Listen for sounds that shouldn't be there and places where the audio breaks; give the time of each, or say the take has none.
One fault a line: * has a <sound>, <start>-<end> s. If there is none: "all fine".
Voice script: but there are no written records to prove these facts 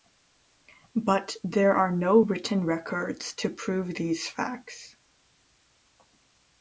all fine